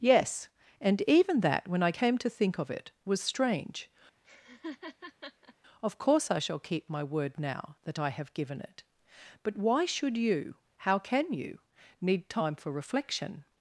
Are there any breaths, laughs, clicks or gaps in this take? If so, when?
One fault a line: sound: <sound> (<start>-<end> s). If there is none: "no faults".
sound: laugh (4.2-5.6 s)